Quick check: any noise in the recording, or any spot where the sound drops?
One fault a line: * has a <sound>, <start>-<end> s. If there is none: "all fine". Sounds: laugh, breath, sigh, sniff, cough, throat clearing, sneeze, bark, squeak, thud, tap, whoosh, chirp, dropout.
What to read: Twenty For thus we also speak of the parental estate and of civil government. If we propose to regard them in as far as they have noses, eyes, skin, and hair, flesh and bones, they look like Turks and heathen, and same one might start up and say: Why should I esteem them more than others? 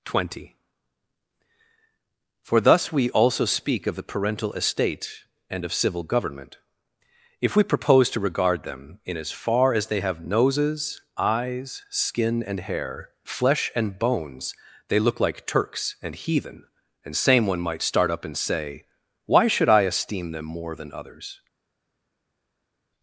all fine